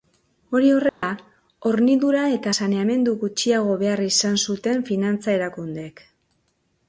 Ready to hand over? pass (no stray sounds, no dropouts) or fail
fail